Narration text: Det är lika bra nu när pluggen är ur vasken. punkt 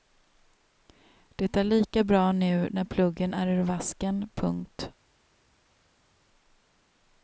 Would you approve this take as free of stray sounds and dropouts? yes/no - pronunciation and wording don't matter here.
yes